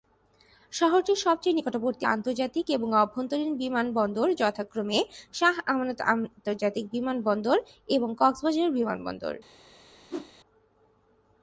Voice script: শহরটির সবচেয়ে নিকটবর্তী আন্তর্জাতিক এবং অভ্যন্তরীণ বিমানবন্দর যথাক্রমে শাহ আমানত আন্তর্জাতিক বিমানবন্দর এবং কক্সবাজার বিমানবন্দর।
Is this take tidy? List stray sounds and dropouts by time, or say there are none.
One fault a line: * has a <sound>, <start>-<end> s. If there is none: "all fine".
* has a whoosh, 10.1-10.3 s